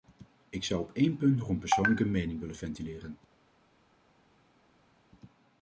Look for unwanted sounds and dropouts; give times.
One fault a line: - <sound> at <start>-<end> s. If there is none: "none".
none